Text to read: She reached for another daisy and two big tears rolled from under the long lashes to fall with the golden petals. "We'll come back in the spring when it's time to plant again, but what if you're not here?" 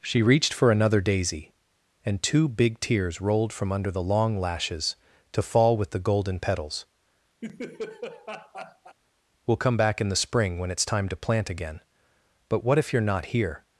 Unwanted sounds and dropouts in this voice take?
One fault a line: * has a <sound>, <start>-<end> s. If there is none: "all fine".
* has a laugh, 7.4-9.0 s